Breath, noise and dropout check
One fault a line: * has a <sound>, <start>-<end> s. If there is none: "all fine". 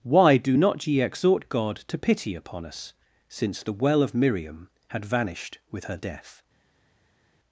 all fine